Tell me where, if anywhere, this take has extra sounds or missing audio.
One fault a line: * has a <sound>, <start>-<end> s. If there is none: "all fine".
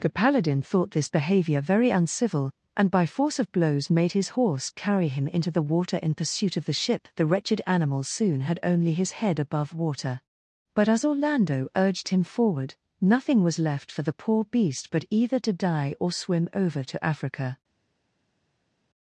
all fine